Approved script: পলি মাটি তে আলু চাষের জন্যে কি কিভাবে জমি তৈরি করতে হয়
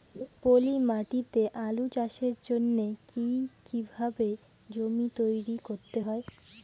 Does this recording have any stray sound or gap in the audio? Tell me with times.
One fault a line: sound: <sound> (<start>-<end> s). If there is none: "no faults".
sound: laugh (0.1-0.3 s)